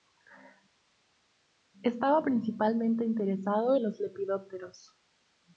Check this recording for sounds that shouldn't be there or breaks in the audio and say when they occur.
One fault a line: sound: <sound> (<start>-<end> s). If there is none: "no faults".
no faults